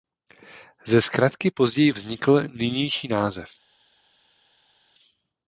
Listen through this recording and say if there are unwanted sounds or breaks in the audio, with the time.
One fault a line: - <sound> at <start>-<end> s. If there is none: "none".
none